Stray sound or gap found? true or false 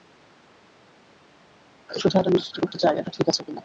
false